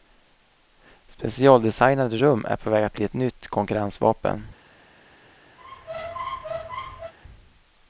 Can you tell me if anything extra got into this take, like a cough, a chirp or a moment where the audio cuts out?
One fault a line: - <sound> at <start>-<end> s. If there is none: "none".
- squeak at 5.6-7.1 s